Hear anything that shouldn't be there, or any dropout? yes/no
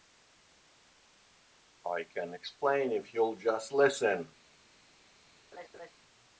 yes